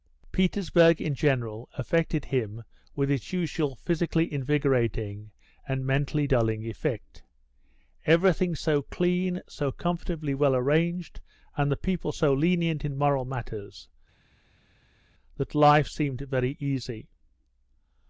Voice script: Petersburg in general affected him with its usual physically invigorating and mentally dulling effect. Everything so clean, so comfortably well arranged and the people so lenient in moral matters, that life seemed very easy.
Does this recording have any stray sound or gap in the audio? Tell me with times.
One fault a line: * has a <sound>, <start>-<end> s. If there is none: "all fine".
all fine